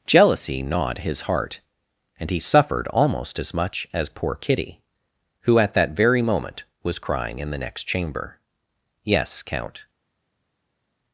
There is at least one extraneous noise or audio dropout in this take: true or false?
false